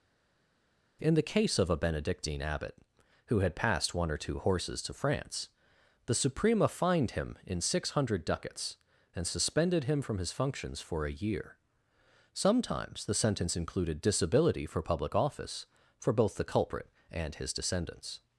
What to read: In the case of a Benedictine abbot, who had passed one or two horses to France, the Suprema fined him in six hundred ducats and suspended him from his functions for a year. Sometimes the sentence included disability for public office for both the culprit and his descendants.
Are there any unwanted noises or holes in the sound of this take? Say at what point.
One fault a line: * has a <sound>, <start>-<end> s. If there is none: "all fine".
all fine